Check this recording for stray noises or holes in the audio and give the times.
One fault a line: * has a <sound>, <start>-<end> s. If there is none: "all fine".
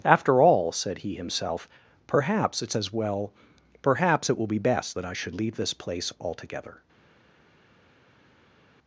all fine